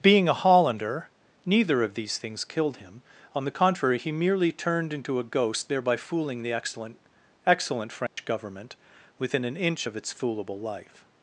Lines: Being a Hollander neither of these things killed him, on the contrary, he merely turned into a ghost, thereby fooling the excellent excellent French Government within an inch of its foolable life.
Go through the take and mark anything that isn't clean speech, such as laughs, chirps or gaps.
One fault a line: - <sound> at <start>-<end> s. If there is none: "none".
- dropout at 8.1-8.2 s